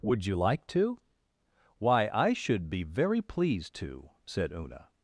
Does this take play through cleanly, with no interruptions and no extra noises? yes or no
yes